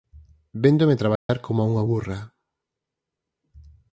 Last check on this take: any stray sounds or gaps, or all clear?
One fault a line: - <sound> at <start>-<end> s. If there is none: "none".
- dropout at 1.2-1.3 s